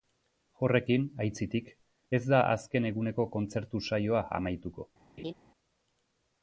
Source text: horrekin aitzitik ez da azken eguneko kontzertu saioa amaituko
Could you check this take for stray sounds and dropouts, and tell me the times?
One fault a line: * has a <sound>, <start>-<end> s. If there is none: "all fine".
* has a laugh, 5.2-5.3 s